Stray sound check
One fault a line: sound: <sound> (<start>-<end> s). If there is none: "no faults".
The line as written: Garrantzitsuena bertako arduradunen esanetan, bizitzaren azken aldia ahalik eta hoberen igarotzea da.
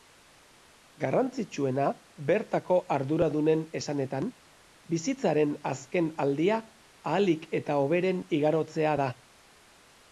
no faults